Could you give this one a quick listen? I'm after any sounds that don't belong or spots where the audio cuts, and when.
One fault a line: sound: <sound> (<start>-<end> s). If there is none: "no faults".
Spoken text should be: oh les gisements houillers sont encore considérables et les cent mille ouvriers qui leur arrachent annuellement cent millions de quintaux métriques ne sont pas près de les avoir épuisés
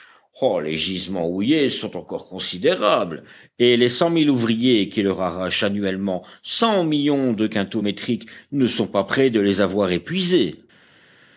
no faults